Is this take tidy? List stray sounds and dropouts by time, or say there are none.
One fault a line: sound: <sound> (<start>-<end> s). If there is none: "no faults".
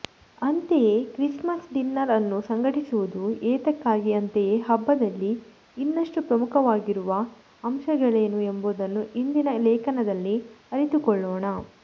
no faults